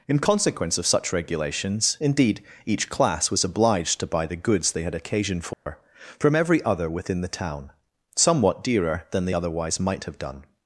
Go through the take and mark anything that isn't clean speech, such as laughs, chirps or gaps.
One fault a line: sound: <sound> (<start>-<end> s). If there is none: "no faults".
sound: dropout (5.5-5.7 s)